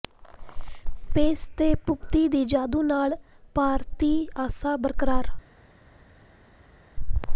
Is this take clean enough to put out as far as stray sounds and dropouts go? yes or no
yes